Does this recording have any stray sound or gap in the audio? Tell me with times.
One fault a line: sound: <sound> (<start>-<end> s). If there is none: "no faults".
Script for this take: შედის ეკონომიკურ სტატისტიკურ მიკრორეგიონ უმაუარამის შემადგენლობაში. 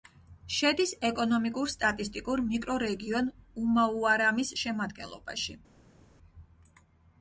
no faults